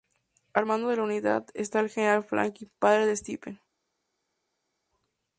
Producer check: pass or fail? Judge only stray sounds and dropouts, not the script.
pass